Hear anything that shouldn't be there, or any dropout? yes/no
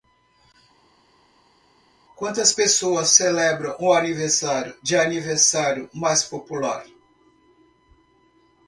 no